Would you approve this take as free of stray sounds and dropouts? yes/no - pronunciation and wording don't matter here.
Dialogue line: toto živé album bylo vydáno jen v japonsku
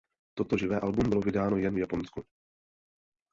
yes